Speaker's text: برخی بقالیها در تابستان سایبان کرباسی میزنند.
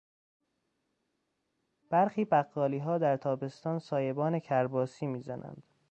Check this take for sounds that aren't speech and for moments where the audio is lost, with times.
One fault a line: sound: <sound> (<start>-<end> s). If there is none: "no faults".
no faults